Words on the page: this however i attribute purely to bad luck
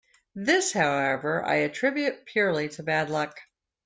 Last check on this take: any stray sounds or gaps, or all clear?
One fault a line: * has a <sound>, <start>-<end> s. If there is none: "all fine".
all fine